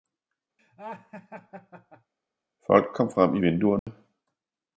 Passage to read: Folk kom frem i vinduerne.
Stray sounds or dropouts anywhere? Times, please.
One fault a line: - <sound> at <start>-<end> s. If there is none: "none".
- laugh at 0.6-2.1 s
- dropout at 3.8-3.9 s